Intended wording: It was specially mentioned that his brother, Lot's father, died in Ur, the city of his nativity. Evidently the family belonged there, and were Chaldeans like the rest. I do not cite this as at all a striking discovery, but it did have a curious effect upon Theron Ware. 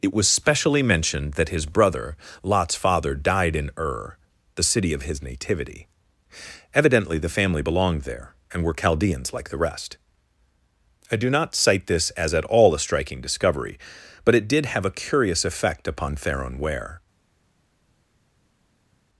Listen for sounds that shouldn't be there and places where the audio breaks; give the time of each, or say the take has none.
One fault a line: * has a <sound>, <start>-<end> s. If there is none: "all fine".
all fine